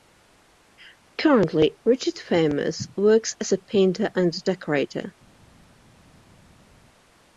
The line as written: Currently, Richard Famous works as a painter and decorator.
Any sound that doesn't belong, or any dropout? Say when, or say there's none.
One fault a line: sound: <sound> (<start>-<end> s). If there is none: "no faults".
no faults